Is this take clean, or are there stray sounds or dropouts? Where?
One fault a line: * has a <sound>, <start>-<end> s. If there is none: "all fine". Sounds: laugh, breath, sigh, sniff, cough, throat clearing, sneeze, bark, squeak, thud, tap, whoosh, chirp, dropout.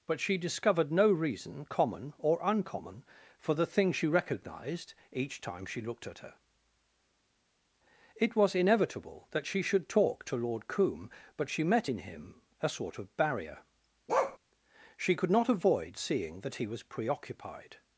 * has a bark, 14.1-14.4 s